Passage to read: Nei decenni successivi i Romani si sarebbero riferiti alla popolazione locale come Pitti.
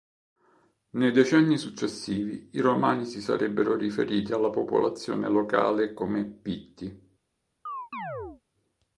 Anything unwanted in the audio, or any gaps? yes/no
yes